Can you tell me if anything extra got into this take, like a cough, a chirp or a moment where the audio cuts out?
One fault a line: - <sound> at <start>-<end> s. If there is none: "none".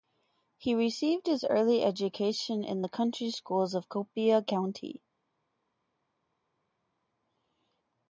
none